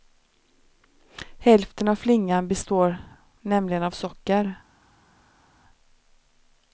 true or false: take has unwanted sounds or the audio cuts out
false